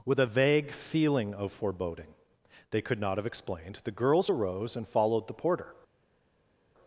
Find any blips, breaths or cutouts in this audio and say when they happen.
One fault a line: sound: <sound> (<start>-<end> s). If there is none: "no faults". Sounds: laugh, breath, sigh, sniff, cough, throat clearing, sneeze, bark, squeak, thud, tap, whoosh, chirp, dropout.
no faults